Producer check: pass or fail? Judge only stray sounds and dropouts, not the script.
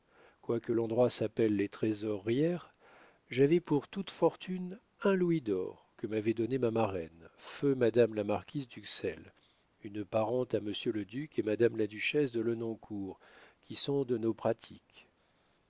pass